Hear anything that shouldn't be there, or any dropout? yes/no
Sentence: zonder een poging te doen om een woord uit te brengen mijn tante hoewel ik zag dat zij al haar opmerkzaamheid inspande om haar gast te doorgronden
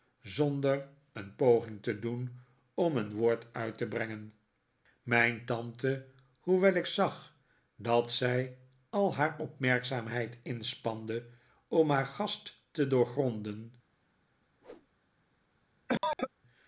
yes